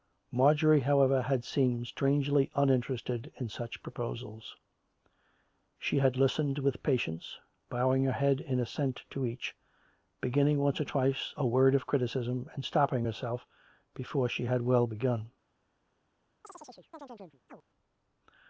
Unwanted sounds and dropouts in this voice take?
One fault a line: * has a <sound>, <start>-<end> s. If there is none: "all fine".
* has a chirp, 16.4-17.6 s